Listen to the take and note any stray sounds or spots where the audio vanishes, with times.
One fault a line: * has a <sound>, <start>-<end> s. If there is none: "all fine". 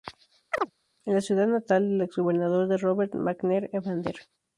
* has a chirp, 0.5-0.7 s